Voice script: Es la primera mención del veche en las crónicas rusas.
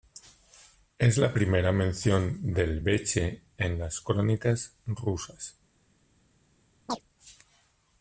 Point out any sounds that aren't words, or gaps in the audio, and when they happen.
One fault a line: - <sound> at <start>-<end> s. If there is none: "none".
- chirp at 6.9-7.0 s